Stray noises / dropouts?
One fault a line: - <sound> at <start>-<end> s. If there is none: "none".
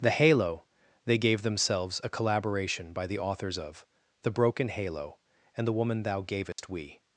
- dropout at 6.5-6.6 s